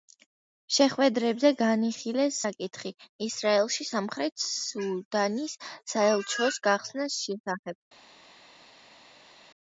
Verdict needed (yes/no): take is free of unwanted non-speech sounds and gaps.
yes